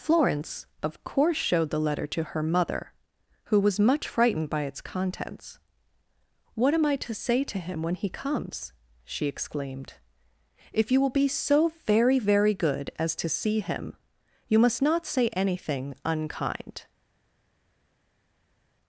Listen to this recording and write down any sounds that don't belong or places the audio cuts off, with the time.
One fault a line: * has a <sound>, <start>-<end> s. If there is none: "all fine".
all fine